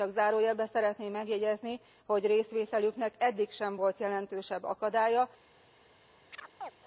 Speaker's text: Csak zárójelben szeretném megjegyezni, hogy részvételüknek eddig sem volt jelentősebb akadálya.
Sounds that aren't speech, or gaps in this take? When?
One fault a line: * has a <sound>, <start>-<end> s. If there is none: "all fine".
* has a chirp, 6.3-6.7 s